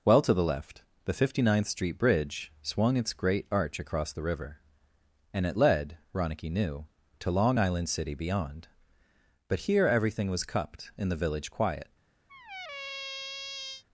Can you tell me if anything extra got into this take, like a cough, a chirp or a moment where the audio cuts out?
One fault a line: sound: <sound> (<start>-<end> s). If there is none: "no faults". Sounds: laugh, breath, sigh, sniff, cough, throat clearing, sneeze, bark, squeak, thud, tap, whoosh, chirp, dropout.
sound: squeak (12.3-13.8 s)